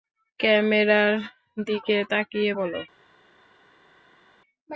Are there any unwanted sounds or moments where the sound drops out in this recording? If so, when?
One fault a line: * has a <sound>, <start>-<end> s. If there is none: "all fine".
all fine